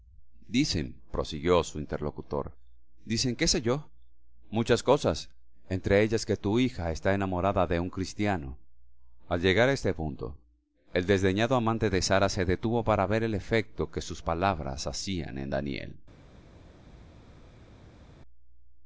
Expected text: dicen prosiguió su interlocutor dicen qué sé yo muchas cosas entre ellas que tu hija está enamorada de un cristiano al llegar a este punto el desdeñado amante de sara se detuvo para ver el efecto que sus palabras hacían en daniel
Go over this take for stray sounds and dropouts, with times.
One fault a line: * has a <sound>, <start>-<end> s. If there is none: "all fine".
all fine